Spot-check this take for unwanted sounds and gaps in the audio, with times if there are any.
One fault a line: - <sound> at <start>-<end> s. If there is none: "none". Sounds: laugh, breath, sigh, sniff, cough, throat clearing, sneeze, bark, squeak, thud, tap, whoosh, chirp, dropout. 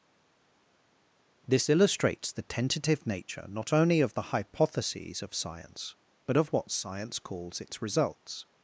none